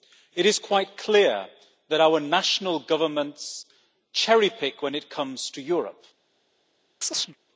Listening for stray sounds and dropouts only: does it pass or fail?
fail